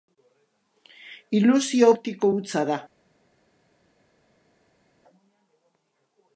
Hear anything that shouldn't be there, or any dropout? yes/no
no